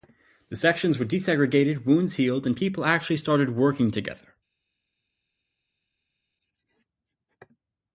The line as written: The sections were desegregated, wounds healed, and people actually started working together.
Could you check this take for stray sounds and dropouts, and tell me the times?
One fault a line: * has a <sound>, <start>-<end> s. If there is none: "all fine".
all fine